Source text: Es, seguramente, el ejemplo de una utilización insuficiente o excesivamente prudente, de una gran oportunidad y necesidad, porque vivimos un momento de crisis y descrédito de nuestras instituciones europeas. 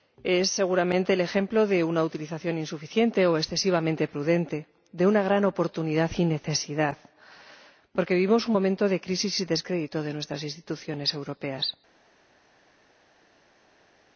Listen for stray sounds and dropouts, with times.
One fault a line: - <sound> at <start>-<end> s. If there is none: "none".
none